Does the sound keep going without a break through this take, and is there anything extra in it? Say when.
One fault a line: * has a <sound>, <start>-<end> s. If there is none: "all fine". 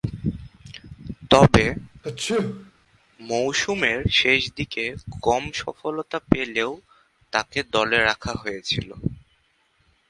* has a sneeze, 2.0-2.7 s